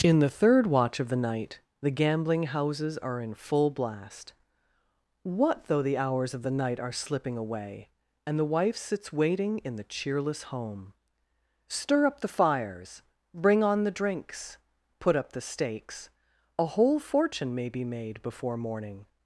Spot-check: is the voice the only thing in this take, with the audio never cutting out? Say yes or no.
yes